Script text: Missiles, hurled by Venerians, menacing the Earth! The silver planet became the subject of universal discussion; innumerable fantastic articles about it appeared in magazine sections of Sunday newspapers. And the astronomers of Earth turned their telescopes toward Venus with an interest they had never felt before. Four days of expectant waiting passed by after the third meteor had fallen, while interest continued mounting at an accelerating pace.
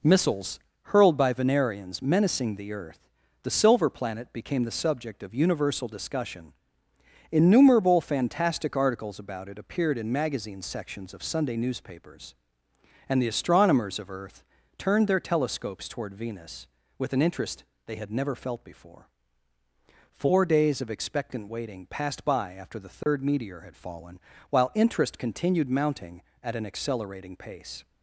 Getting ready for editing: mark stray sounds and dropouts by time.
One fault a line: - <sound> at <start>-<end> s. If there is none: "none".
- dropout at 23.0-23.1 s